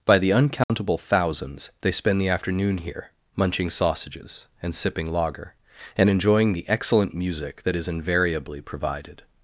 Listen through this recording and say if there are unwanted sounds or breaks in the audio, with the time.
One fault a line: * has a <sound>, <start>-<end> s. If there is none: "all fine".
* has a dropout, 0.6-0.7 s